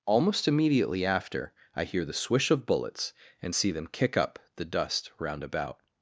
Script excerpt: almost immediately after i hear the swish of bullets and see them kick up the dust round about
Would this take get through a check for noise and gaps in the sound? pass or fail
pass